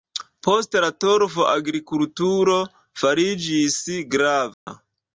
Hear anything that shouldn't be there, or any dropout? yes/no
yes